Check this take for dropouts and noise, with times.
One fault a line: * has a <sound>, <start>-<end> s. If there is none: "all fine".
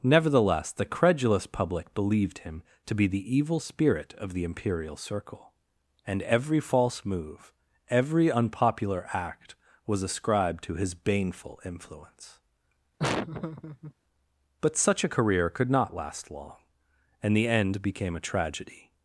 * has a laugh, 13.0-13.9 s